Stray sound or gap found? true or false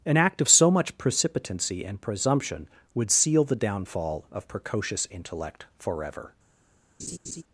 true